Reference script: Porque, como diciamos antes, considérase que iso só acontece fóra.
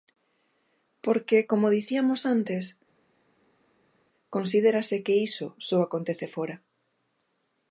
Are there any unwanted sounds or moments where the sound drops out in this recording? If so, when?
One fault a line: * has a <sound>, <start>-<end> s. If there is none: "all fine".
all fine